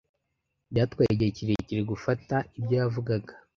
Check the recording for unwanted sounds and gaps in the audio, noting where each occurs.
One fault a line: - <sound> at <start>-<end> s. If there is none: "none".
none